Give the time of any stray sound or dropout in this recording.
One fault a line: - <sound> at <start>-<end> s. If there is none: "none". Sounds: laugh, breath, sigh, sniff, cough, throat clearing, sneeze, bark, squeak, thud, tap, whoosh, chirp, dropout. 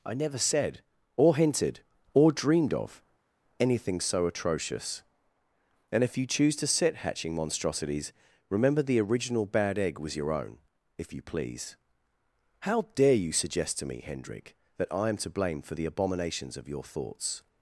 none